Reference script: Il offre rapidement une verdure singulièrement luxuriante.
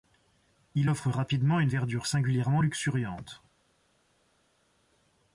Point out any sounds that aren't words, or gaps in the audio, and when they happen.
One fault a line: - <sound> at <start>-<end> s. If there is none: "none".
none